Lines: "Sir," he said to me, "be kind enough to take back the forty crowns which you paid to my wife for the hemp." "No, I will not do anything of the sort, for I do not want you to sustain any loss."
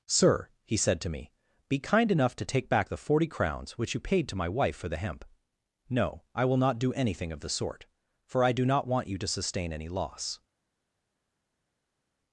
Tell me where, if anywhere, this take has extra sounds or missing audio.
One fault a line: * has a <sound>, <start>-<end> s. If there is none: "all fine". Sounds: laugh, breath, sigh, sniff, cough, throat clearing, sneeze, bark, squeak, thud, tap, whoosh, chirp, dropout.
all fine